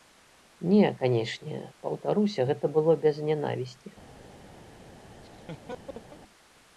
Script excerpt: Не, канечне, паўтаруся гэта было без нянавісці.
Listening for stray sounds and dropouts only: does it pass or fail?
fail